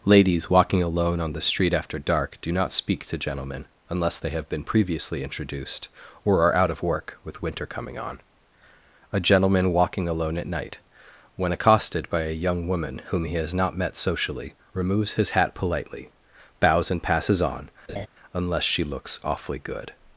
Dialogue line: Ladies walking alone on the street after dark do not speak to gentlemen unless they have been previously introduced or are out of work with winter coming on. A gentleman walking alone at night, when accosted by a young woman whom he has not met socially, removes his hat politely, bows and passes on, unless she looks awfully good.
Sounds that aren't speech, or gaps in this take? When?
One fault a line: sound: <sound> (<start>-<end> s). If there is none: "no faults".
sound: laugh (17.9-18.1 s)